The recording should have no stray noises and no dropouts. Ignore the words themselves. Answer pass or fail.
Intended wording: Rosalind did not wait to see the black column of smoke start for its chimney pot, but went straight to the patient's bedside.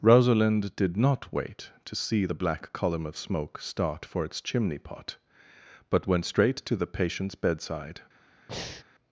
fail